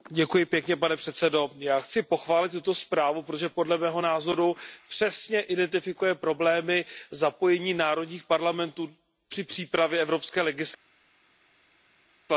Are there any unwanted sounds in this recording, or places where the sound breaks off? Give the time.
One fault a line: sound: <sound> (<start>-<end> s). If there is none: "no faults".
no faults